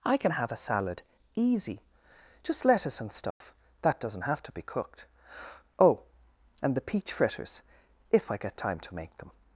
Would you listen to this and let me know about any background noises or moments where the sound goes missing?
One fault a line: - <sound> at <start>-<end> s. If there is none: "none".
- dropout at 3.3-3.4 s